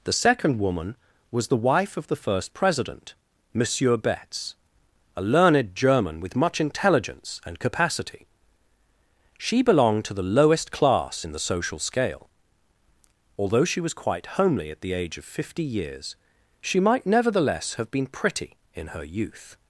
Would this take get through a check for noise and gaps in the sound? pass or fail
pass